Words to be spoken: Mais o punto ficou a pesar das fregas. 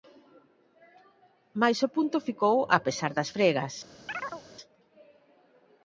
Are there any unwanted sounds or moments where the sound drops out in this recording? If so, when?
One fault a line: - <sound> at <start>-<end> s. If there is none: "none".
- chirp at 4.1-4.4 s